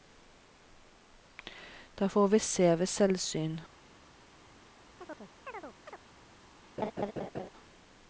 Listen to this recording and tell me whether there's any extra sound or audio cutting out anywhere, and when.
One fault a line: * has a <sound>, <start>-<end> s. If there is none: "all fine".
* has a chirp, 5.0-6.0 s
* has a laugh, 6.8-7.5 s